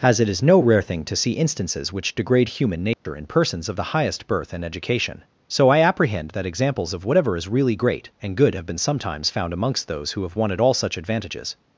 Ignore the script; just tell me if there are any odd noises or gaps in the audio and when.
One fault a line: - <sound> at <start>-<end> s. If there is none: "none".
- dropout at 2.9-3.1 s